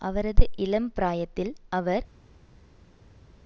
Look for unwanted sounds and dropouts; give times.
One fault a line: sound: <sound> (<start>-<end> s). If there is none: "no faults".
no faults